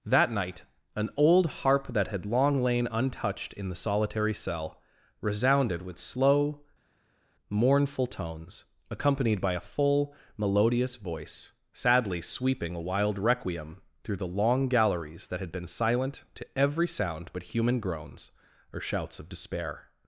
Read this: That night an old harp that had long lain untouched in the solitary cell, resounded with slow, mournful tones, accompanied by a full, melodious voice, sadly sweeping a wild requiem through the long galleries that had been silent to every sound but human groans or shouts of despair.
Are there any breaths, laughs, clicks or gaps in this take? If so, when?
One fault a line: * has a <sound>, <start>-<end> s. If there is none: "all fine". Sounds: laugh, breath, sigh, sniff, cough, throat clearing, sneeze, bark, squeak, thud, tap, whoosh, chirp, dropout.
all fine